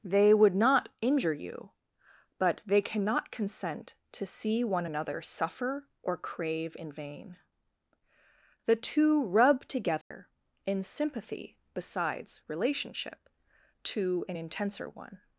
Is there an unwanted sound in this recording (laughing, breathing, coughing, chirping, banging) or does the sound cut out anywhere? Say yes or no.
yes